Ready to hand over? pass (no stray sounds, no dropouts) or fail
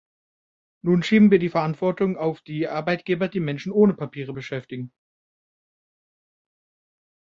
pass